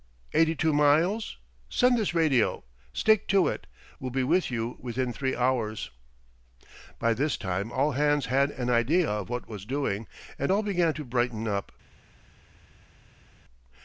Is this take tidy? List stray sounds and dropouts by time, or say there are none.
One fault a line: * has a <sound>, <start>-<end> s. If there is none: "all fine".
all fine